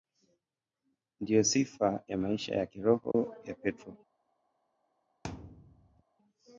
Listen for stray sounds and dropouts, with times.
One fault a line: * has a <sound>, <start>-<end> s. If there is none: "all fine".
* has a dropout, 3.1-3.1 s
* has a thud, 5.2-6.0 s